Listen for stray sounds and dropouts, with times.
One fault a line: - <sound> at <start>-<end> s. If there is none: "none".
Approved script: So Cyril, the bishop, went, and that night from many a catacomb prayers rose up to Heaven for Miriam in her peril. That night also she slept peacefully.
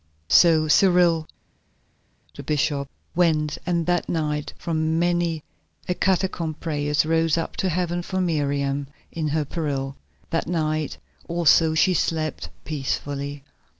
none